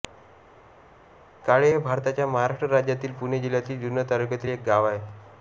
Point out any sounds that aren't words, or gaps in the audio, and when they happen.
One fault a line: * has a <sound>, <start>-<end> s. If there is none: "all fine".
all fine